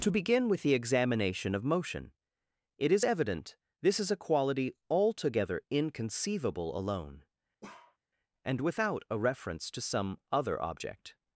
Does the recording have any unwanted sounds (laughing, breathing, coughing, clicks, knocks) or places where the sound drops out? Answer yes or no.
yes